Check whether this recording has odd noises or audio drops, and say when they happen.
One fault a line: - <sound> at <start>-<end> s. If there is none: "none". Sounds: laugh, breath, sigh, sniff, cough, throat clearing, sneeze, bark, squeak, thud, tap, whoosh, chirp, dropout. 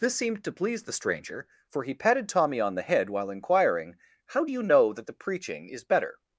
none